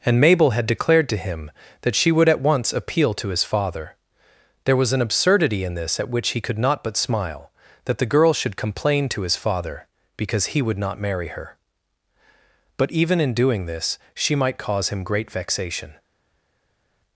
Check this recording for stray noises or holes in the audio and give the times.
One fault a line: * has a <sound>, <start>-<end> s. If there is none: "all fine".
all fine